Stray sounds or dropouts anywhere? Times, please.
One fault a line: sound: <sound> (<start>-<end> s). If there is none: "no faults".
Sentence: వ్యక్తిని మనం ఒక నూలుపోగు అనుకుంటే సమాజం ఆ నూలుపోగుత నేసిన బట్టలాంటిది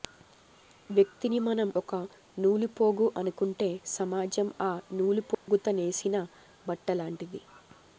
sound: dropout (5.3-5.5 s)